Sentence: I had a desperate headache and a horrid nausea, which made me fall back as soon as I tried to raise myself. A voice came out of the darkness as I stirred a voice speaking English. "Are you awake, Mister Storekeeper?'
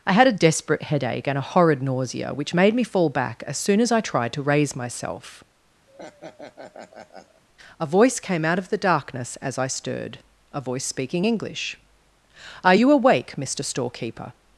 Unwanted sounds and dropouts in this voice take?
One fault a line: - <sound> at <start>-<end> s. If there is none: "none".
- laugh at 5.9-7.4 s